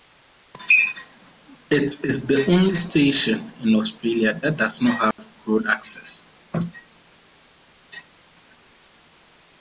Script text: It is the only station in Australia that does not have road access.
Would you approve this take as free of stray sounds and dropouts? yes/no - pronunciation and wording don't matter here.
no